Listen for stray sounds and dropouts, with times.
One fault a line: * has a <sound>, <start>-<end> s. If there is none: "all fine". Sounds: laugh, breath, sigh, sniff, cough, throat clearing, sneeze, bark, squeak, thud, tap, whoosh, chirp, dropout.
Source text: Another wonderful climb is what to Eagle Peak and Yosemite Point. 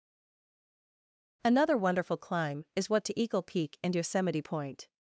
all fine